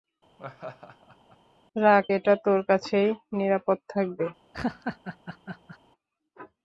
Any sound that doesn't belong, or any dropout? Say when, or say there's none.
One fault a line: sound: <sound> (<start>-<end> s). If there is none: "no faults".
sound: laugh (0.4-1.4 s)
sound: laugh (4.5-5.8 s)